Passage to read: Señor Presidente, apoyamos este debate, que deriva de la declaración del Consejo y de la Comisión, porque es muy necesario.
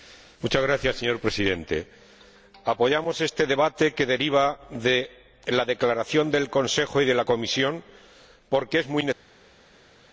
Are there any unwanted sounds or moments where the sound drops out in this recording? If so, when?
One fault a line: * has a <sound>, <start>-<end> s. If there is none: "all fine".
all fine